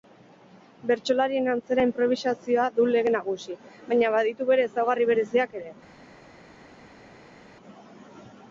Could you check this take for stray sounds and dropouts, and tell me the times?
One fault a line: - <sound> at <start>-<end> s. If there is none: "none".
none